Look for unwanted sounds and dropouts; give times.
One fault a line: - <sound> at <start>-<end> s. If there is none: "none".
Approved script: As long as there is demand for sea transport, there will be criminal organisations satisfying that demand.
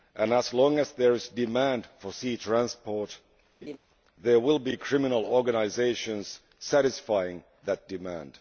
- laugh at 3.6-3.8 s